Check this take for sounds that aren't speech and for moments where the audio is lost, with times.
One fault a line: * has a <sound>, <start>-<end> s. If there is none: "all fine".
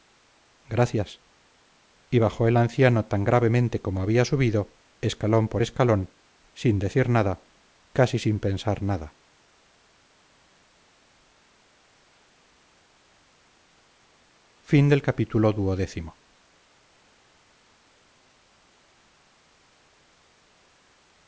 all fine